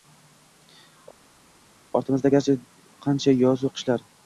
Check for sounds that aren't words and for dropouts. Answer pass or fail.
pass